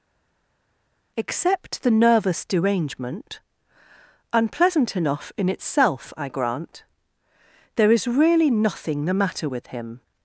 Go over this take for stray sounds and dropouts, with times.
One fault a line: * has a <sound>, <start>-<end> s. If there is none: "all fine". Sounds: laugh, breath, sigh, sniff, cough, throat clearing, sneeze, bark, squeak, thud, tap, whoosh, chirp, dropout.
all fine